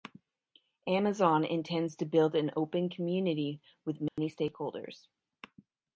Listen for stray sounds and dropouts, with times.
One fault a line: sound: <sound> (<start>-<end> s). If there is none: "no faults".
sound: dropout (4.1-4.2 s)